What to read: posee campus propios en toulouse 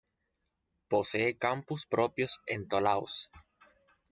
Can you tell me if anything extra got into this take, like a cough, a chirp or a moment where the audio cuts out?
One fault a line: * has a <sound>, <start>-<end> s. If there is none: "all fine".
all fine